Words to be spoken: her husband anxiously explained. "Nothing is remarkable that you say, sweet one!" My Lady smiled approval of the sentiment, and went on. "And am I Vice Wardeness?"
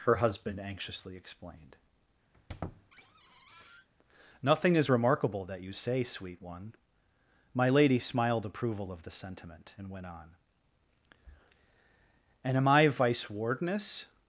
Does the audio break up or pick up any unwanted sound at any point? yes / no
yes